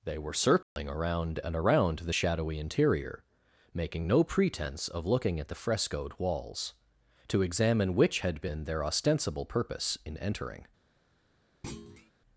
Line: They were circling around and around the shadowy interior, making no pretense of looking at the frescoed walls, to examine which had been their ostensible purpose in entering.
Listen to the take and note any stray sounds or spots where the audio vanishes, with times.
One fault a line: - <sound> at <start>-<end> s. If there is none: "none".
- dropout at 0.6-0.8 s
- thud at 11.6-12.1 s